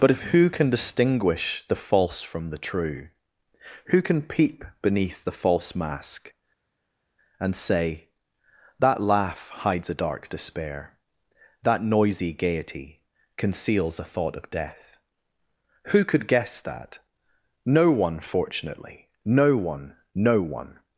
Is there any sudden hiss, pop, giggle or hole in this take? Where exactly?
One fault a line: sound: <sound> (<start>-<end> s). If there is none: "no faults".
no faults